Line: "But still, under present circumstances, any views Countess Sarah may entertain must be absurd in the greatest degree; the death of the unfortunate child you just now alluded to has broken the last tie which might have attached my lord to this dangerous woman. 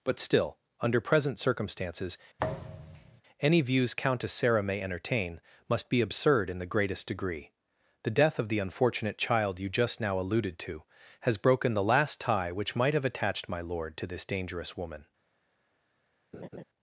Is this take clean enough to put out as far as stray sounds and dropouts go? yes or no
no